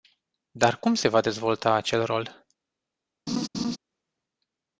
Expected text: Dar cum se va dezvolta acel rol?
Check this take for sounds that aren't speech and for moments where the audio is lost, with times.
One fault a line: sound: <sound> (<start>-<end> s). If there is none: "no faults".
sound: laugh (3.3-3.8 s)